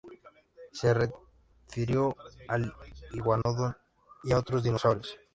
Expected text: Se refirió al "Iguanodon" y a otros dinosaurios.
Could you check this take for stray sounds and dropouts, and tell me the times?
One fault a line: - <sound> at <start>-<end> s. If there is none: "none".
- dropout at 3.4-3.5 s